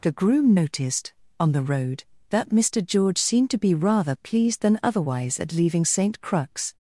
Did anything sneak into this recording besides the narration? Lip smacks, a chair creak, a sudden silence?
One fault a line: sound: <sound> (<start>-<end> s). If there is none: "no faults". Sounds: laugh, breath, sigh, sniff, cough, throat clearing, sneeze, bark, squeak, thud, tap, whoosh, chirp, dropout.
no faults